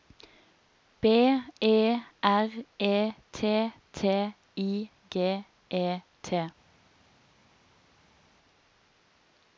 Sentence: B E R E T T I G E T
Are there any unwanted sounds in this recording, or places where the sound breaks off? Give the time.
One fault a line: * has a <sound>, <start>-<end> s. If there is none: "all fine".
all fine